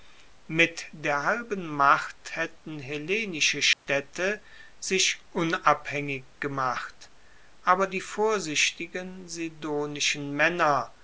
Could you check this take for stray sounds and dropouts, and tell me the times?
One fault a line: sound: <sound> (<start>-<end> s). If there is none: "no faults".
sound: dropout (3.7-3.9 s)